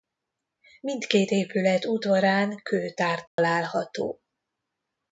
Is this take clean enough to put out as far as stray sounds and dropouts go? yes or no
no